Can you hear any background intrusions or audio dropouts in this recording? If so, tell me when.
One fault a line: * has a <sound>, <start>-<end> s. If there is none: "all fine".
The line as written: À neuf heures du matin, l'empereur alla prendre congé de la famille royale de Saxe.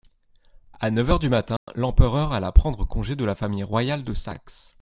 * has a dropout, 1.6-1.7 s